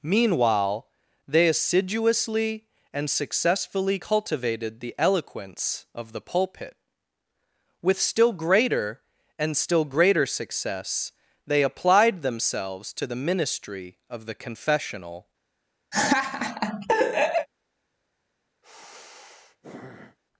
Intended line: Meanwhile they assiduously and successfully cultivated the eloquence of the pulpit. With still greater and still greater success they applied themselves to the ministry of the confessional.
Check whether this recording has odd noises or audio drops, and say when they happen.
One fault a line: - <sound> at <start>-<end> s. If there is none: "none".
- laugh at 15.9-17.5 s
- sigh at 18.6-20.2 s